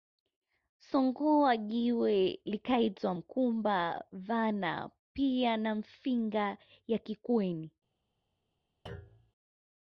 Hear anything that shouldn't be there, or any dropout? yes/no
yes